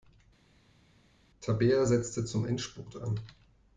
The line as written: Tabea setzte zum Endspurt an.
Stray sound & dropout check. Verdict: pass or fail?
pass